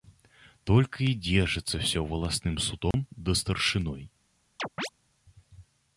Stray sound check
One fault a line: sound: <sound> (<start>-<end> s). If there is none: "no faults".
sound: dropout (2.9-2.9 s)
sound: chirp (4.6-4.9 s)